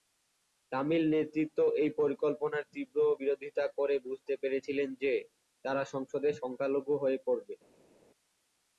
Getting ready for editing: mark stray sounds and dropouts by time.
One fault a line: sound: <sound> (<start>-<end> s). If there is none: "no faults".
no faults